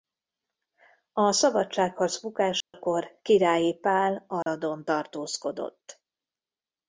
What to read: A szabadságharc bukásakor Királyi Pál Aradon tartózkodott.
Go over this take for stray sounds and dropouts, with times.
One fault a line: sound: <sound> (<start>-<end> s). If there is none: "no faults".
sound: dropout (2.6-2.7 s)
sound: dropout (4.4-4.5 s)